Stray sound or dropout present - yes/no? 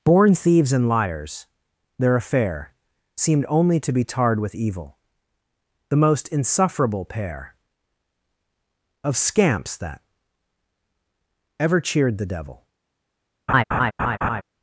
yes